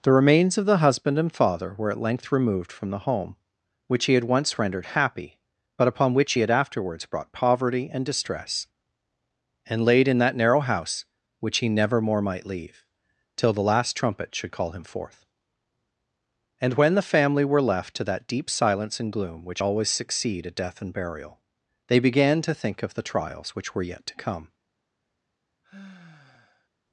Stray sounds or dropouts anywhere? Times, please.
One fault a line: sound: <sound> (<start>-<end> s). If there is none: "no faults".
sound: sigh (25.6-26.7 s)